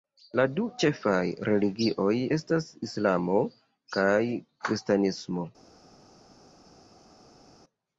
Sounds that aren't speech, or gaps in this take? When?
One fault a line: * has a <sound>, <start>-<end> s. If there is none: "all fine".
all fine